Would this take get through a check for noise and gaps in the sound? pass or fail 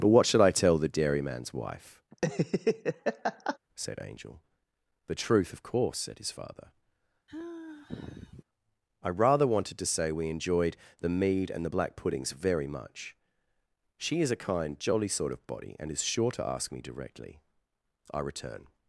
fail